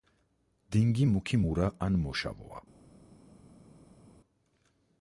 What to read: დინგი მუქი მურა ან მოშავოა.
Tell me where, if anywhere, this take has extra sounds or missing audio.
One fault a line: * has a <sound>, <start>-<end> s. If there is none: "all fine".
all fine